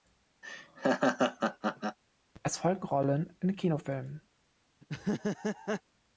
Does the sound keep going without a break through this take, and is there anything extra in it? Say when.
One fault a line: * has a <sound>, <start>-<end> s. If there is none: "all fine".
* has a laugh, 0.4-2.0 s
* has a laugh, 4.8-5.8 s